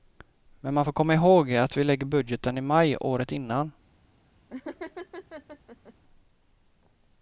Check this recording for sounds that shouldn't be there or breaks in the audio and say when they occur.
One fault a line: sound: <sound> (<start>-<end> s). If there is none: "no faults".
sound: laugh (4.5-5.9 s)